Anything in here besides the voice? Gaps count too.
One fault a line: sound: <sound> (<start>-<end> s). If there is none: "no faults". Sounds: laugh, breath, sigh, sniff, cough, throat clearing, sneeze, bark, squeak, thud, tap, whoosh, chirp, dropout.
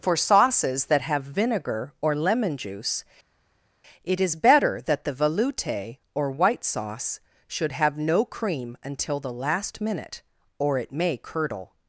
no faults